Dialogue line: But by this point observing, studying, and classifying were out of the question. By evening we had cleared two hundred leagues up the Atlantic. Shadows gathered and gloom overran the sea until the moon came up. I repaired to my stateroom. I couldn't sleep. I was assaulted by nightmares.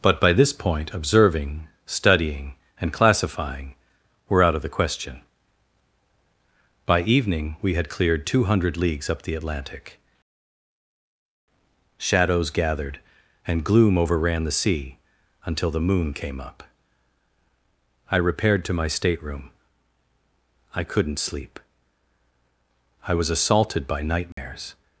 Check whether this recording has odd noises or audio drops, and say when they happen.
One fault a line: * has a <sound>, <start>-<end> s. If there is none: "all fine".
* has a dropout, 24.3-24.4 s